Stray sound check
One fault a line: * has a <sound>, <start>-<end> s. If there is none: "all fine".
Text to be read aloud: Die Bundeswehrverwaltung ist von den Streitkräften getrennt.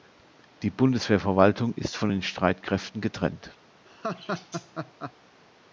* has a laugh, 3.9-5.1 s